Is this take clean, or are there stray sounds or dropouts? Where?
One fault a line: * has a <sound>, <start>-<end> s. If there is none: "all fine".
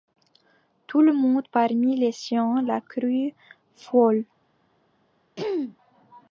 * has a throat clearing, 5.4-5.8 s